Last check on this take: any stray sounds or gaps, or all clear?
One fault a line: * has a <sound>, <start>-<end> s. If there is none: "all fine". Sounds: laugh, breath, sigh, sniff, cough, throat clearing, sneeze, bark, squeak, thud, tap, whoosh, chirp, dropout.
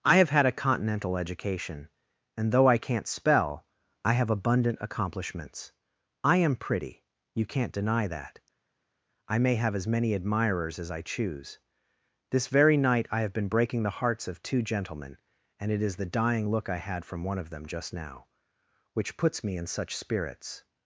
all fine